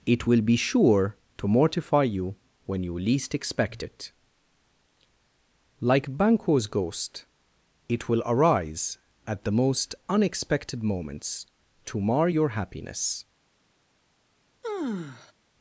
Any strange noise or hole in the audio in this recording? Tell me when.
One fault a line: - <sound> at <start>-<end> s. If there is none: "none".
- sigh at 14.6-15.3 s